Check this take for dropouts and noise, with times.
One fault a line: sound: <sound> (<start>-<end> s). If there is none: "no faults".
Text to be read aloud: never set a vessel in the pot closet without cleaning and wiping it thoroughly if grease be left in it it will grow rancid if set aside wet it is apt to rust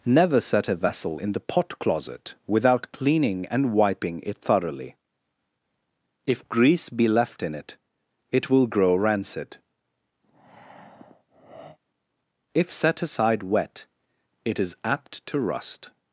sound: breath (10.2-11.8 s)